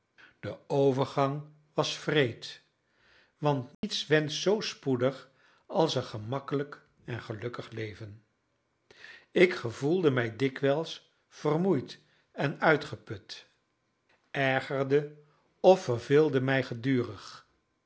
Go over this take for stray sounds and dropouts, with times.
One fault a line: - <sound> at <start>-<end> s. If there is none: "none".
- dropout at 3.7-3.8 s